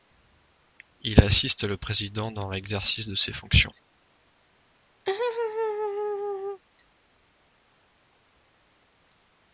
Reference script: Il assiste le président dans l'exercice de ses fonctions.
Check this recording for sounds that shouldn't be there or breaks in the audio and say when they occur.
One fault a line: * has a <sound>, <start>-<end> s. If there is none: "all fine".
* has a laugh, 5.1-6.6 s